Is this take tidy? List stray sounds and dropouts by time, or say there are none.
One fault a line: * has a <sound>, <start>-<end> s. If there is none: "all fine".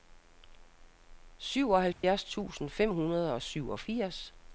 * has a dropout, 1.9-2.0 s